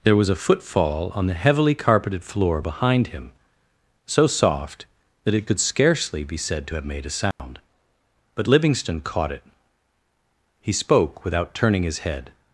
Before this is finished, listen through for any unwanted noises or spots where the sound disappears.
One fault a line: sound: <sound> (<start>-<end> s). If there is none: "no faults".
sound: dropout (7.3-7.4 s)